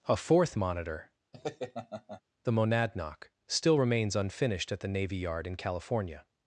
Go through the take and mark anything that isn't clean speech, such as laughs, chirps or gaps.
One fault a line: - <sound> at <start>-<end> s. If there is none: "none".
- laugh at 1.3-2.2 s